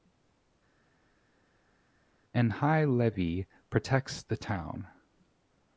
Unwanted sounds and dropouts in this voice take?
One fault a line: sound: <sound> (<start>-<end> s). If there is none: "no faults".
no faults